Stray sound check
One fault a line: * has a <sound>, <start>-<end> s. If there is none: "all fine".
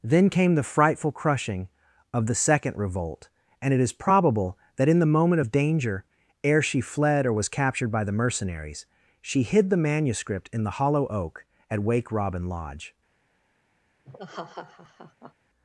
* has a laugh, 14.0-15.3 s